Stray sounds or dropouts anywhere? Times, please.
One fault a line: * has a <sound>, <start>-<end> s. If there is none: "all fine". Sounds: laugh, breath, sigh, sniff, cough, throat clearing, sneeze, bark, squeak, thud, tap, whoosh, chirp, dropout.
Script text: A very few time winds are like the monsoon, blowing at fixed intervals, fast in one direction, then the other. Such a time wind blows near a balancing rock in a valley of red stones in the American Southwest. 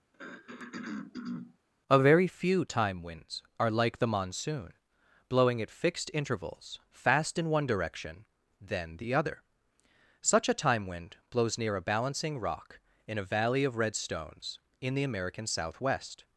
* has a throat clearing, 0.1-1.6 s